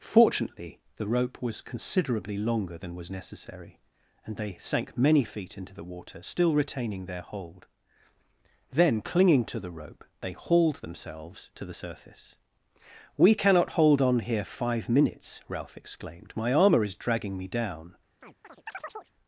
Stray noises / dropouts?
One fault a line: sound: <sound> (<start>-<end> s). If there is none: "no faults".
sound: chirp (18.2-19.1 s)